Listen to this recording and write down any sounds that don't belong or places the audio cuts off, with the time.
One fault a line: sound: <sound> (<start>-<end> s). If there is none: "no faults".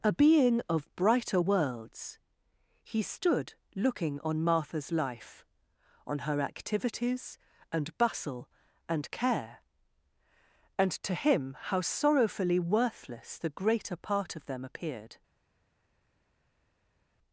no faults